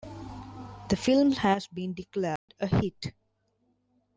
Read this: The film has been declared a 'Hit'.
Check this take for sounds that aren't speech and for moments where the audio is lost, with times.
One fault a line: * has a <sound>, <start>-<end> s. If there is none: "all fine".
* has a dropout, 2.4-2.5 s